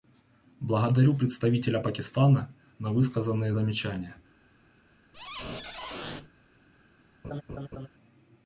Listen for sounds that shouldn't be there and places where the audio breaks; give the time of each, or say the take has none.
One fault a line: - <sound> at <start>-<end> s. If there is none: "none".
- squeak at 5.1-6.3 s
- laugh at 7.2-7.9 s